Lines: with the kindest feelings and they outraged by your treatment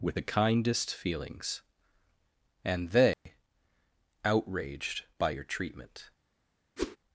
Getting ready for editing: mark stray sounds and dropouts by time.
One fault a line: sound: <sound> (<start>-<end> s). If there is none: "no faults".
sound: dropout (3.1-3.3 s)
sound: whoosh (6.8-7.0 s)